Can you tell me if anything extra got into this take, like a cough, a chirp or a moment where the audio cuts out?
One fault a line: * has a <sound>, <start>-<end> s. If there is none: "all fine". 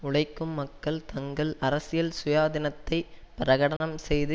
* has a dropout, 3.8-3.8 s